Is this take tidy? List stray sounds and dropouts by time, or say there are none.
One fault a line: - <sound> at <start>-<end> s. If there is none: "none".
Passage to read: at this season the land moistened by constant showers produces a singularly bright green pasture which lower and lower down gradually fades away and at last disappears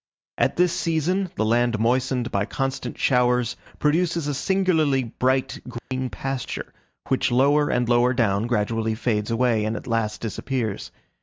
- dropout at 5.8-5.9 s